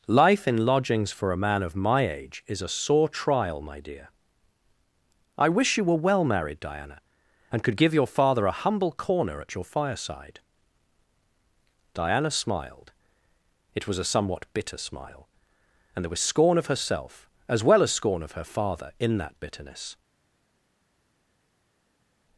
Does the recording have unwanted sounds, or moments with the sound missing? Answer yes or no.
no